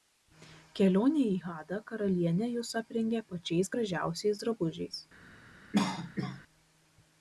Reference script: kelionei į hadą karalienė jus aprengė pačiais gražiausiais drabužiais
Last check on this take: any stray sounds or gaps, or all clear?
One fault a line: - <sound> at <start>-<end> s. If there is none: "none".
- cough at 5.7-6.4 s